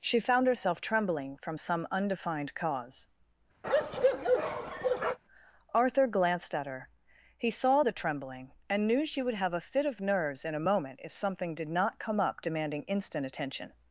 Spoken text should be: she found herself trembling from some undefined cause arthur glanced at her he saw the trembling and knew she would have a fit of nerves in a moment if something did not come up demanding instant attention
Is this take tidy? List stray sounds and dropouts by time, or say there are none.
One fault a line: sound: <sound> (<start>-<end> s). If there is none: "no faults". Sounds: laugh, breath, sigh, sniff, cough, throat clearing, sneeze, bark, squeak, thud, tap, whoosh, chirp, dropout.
sound: bark (3.6-5.2 s)